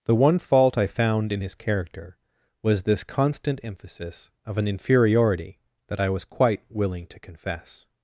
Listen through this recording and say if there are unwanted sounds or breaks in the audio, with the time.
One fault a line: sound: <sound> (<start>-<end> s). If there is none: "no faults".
no faults